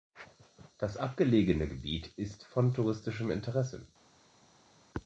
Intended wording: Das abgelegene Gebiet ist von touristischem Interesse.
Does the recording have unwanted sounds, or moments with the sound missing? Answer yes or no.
no